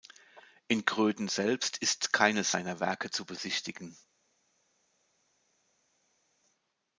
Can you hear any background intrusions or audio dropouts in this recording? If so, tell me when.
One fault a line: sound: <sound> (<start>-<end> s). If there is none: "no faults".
no faults